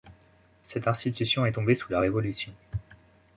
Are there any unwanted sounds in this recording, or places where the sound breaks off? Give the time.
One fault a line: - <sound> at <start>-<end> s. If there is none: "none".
none